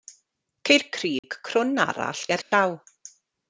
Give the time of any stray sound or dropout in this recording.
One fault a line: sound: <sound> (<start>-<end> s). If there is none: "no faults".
sound: dropout (1.2-1.2 s)
sound: dropout (2.4-2.5 s)